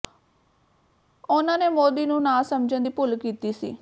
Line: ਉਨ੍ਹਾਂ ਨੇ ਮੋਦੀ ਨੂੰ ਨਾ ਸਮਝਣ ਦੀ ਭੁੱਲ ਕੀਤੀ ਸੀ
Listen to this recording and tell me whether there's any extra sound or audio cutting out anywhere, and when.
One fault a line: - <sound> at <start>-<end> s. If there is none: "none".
none